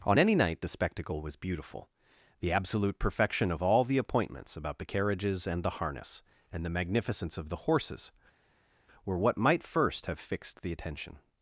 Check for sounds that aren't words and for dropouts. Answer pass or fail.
pass